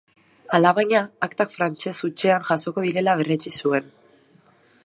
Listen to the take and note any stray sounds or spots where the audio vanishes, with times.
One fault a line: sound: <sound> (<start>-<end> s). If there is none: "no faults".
no faults